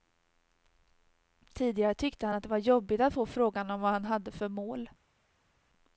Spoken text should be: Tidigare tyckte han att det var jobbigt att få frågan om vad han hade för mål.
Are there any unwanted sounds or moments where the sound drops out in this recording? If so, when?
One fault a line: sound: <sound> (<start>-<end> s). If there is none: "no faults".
no faults